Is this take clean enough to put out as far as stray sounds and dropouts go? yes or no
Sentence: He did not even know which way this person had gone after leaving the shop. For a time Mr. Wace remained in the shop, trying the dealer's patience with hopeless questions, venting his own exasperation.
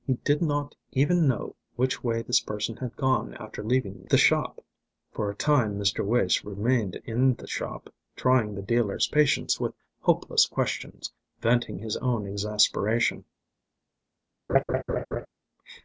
no